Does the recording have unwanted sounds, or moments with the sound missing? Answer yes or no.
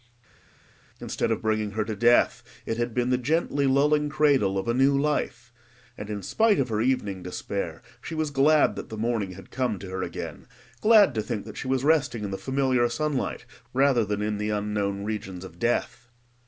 no